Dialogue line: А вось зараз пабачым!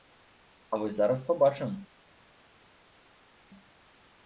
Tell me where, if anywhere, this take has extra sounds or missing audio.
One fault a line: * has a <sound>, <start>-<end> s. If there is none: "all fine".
all fine